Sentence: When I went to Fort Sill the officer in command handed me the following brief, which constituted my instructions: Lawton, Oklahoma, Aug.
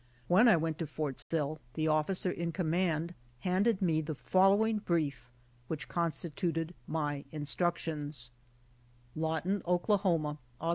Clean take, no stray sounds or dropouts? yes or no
no